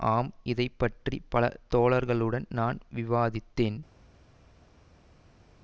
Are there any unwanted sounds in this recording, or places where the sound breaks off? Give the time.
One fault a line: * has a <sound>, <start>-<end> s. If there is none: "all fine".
all fine